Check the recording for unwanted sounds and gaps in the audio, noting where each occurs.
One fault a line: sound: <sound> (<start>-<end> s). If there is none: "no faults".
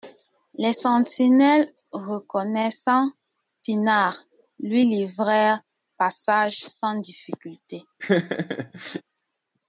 sound: laugh (8.0-9.0 s)